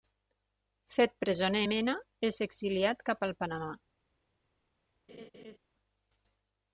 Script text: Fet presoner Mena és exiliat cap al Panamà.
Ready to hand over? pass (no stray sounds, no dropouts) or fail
fail